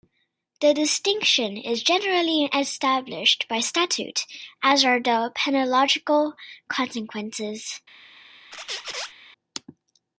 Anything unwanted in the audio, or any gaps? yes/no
yes